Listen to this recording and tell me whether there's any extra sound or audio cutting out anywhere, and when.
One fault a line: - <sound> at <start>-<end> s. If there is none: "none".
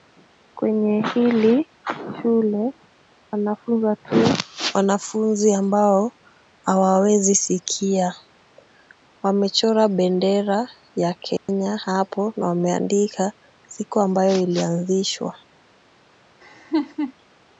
- dropout at 11.4-11.5 s
- laugh at 16.4-17.1 s